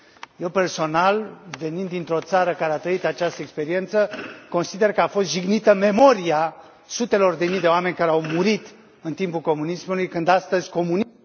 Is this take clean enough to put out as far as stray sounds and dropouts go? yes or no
yes